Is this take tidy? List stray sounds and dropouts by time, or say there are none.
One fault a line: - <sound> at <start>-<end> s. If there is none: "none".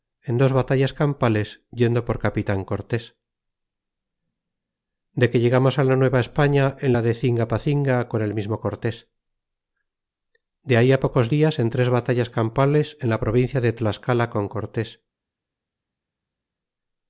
none